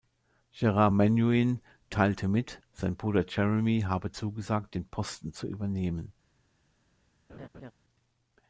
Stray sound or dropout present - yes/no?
yes